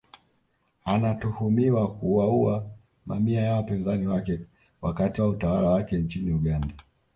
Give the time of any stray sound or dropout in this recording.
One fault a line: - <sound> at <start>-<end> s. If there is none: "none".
none